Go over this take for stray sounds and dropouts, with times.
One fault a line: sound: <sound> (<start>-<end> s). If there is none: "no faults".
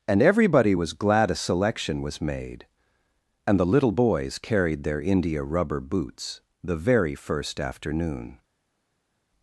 no faults